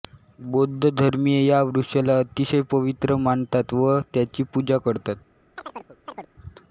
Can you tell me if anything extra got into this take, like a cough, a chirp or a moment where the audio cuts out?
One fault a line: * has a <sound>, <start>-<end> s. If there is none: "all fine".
* has a chirp, 5.6-6.3 s